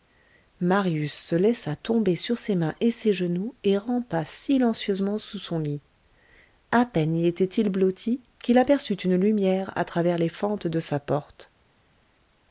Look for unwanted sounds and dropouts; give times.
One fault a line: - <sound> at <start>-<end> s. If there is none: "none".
none